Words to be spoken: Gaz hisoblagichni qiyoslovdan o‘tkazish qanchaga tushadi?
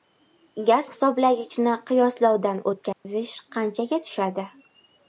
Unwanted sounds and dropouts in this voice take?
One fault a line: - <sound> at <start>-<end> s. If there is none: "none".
- dropout at 2.9-3.1 s